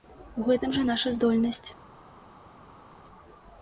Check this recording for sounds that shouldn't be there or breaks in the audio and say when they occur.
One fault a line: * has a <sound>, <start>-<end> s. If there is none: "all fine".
all fine